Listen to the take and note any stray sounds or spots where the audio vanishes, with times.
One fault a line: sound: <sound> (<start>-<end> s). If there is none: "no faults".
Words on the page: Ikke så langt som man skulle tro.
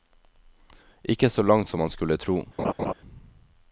sound: laugh (2.6-2.9 s)